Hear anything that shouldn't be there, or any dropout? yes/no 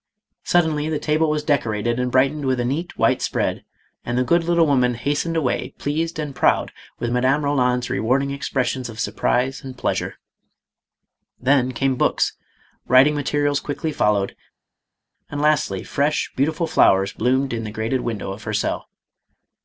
no